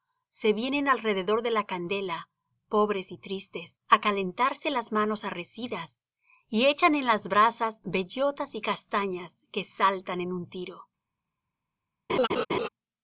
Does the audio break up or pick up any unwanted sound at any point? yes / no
yes